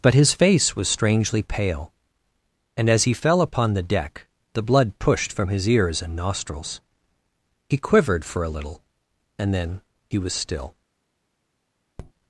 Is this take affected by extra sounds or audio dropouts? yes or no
yes